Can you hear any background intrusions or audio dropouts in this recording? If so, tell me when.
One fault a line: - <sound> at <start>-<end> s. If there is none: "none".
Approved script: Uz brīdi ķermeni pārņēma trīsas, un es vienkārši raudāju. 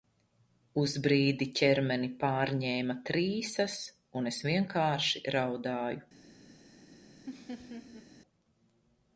- laugh at 7.3-8.1 s